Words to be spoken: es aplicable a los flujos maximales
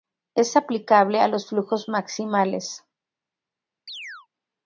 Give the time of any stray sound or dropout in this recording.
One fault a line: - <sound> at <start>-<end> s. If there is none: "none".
- chirp at 3.9-4.3 s